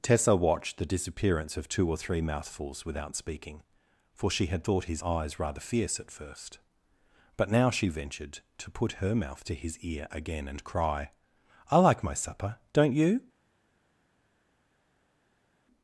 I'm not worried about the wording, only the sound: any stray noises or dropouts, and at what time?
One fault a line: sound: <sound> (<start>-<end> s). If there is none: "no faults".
no faults